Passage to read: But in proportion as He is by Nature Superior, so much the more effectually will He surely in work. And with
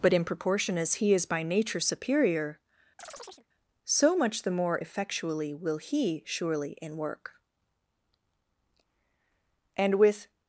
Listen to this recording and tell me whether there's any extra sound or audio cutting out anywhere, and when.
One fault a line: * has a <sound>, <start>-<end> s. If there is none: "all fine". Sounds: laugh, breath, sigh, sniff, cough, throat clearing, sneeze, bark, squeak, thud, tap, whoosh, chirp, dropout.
* has a chirp, 3.0-3.5 s